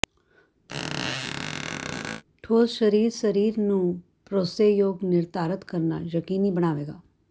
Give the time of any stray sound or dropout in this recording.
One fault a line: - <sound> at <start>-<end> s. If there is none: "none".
- squeak at 0.7-2.2 s